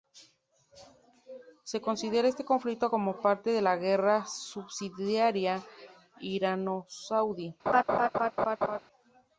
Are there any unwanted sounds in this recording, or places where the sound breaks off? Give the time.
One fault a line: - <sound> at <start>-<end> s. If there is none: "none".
- laugh at 7.7-8.8 s